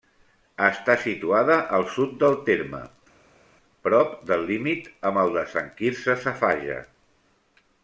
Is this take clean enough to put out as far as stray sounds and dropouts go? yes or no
yes